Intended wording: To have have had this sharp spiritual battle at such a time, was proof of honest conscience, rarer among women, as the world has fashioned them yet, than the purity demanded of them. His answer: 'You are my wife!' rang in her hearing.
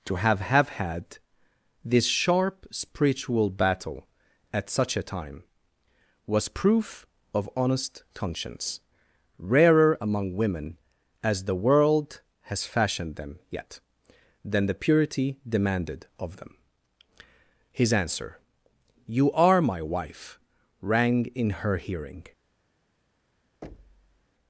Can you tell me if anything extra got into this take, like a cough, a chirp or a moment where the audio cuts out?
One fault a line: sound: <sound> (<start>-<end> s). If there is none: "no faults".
sound: thud (23.6-24.3 s)